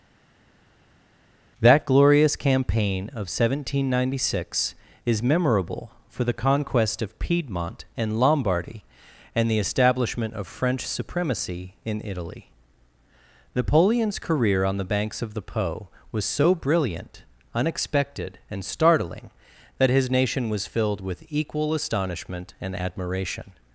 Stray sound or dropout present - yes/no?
no